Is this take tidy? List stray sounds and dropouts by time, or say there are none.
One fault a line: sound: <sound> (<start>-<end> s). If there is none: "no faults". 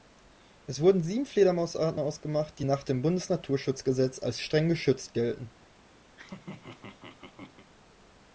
sound: laugh (6.1-7.7 s)